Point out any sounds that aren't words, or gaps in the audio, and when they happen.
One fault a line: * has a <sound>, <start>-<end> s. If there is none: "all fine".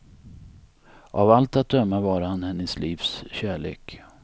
all fine